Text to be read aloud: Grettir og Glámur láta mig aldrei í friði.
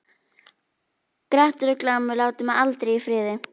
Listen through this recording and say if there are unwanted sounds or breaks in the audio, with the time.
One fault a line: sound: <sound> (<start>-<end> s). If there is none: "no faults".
no faults